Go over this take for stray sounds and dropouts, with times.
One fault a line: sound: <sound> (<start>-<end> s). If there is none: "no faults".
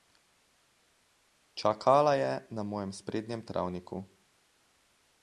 no faults